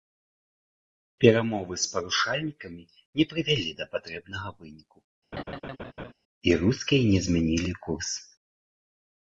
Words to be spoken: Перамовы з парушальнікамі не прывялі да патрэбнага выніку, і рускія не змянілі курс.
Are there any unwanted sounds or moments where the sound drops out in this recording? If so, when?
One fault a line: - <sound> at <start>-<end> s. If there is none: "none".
- laugh at 5.3-6.1 s